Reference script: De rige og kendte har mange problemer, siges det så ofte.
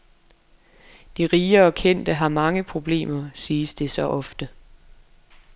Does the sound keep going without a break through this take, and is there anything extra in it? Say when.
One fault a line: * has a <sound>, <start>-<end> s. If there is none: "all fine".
all fine